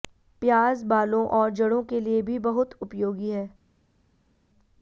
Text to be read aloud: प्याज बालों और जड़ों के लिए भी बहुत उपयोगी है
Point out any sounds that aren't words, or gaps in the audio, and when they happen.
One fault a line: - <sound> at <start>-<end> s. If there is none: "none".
none